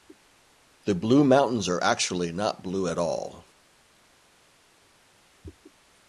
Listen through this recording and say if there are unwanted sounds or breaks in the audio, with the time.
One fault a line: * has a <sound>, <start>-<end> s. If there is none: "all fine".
all fine